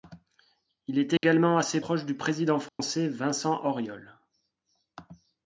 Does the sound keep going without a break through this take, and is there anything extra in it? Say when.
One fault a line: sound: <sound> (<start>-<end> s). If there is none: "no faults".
sound: dropout (1.2-1.2 s)
sound: dropout (2.7-2.8 s)